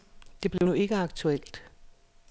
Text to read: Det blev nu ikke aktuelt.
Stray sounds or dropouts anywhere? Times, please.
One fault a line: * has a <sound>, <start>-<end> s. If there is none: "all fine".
* has a dropout, 0.6-0.6 s